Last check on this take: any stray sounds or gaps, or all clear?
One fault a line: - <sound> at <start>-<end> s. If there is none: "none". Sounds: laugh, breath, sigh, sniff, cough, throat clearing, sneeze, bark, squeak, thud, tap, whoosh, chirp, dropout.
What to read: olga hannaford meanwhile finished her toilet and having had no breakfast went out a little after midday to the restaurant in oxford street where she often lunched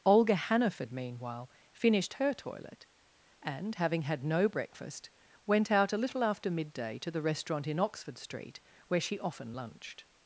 none